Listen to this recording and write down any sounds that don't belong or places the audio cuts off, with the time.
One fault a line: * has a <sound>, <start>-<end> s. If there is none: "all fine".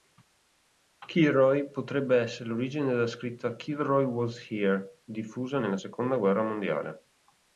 all fine